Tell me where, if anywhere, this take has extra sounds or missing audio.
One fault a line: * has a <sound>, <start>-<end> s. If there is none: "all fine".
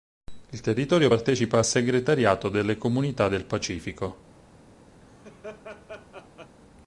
* has a laugh, 5.0-6.6 s